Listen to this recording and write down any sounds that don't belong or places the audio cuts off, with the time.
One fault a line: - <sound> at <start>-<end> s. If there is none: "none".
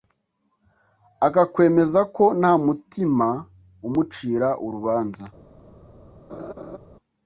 - laugh at 6.3-6.8 s